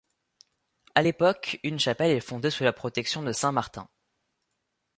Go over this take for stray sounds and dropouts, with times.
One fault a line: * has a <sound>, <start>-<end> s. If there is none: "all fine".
all fine